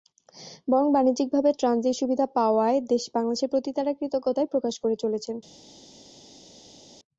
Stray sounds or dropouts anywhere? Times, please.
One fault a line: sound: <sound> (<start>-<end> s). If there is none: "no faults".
no faults